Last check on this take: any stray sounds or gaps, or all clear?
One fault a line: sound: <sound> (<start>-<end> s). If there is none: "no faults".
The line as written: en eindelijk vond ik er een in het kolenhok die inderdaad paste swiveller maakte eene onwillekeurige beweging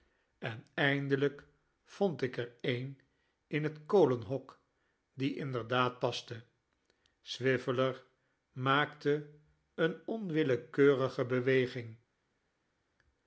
no faults